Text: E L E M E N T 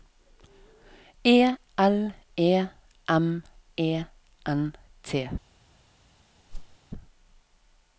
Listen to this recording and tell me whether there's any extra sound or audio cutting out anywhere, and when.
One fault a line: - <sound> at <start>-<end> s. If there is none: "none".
- whoosh at 6.5-6.8 s